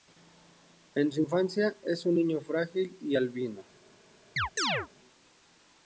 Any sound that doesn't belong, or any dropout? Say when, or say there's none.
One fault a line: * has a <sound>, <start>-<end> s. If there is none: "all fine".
* has a chirp, 4.4-4.9 s